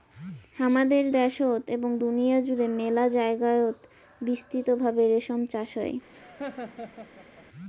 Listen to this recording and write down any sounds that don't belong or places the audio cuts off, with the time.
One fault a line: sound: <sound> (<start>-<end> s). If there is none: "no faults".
sound: laugh (6.1-7.5 s)